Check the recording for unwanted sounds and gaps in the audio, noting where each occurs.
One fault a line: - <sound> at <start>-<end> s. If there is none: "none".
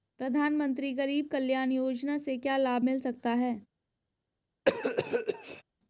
- cough at 4.7-5.6 s